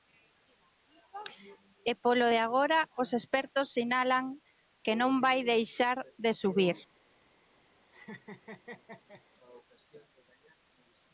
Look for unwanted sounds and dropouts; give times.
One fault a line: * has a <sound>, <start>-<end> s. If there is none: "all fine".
* has a laugh, 7.9-9.2 s